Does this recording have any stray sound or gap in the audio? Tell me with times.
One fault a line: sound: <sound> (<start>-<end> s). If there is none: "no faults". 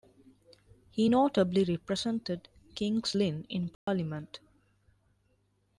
sound: dropout (3.7-3.9 s)